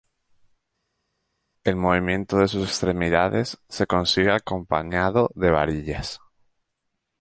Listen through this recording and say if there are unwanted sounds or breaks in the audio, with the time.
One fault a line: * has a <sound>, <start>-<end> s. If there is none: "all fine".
all fine